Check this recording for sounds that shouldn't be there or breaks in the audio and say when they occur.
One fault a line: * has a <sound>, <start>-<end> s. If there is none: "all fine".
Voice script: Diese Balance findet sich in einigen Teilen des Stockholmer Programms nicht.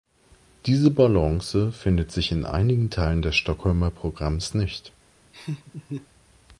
* has a laugh, 5.3-6.1 s